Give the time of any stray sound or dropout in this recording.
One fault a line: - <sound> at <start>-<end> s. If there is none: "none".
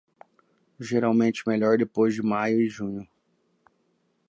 none